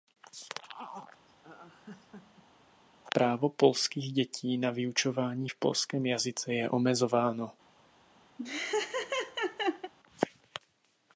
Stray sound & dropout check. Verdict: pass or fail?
fail